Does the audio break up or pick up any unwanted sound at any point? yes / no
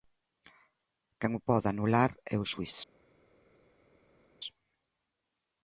no